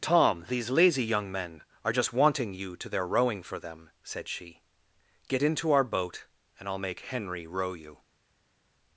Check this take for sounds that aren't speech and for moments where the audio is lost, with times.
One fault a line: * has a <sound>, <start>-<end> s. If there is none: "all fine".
all fine